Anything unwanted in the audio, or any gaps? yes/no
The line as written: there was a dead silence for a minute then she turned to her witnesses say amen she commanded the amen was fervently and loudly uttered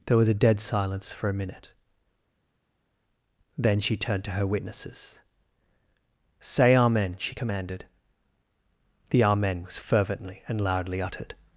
no